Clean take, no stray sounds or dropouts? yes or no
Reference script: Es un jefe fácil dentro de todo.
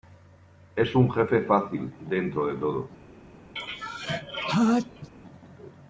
no